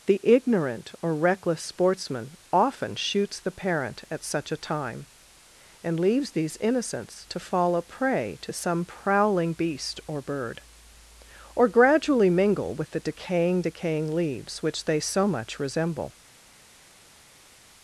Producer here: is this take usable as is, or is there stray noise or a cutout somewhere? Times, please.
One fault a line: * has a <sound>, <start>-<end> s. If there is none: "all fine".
all fine